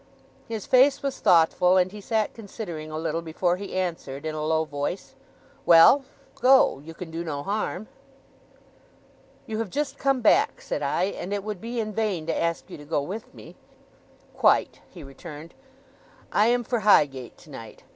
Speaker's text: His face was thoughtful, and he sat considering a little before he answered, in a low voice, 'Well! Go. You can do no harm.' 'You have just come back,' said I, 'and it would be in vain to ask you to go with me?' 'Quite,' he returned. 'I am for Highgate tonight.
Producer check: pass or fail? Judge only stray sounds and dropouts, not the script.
pass